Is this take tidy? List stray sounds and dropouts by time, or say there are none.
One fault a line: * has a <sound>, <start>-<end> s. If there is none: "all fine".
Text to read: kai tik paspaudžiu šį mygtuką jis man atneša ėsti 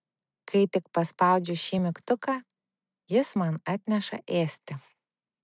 all fine